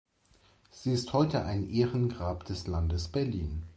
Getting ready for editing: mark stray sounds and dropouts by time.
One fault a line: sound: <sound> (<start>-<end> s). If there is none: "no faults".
no faults